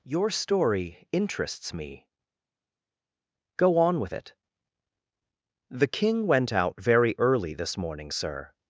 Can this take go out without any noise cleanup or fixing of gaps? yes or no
yes